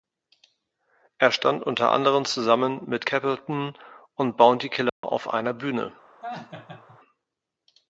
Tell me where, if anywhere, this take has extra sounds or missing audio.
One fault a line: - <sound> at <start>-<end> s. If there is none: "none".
- dropout at 4.9-5.0 s
- laugh at 6.2-7.0 s